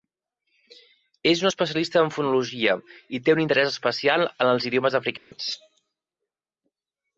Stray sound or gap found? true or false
true